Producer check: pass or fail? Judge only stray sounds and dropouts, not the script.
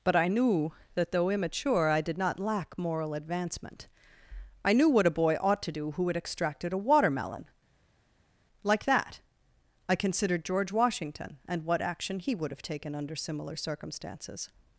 pass